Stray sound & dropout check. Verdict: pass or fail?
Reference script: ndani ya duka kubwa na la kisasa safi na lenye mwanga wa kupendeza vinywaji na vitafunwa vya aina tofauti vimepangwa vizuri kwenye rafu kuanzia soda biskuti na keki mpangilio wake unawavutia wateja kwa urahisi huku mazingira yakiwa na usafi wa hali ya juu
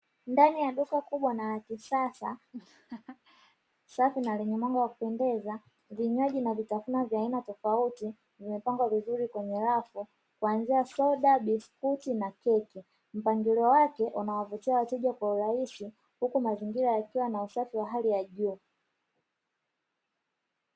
fail